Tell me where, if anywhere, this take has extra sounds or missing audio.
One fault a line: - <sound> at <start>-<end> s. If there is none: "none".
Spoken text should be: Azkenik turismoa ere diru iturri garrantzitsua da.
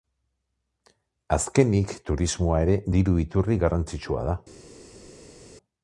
none